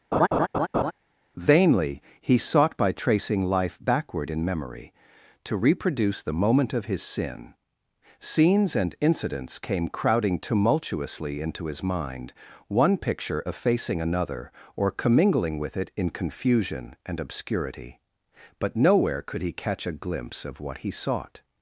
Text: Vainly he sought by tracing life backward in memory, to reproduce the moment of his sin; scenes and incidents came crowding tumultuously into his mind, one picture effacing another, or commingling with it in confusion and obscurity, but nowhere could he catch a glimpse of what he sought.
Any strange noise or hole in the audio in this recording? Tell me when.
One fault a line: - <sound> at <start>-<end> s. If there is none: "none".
- laugh at 0.1-0.9 s